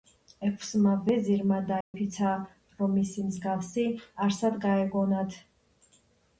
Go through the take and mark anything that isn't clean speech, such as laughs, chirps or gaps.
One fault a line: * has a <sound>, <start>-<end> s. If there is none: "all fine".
* has a dropout, 1.8-1.9 s